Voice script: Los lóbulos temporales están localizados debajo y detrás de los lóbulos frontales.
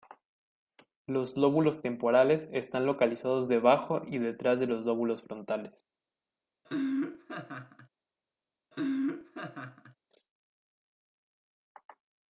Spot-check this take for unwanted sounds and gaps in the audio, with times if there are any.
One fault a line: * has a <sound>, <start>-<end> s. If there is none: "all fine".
* has a laugh, 6.6-7.9 s
* has a laugh, 8.7-10.0 s